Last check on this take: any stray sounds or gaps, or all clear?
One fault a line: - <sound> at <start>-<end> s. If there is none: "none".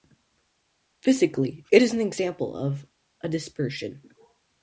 none